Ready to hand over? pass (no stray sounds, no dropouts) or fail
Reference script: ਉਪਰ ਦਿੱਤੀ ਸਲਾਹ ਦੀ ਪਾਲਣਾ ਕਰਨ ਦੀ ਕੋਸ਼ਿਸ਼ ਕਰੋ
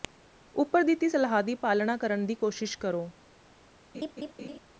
fail